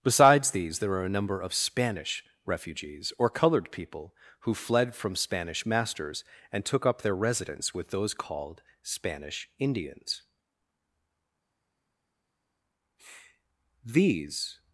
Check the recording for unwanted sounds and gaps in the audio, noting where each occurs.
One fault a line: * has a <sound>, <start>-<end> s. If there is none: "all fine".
all fine